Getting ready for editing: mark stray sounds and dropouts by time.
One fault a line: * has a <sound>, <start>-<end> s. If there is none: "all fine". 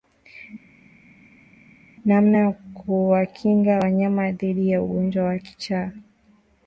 all fine